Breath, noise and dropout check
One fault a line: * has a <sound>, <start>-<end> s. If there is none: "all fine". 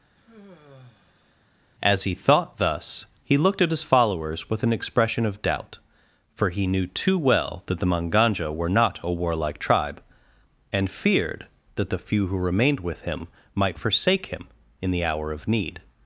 * has a sigh, 0.2-1.4 s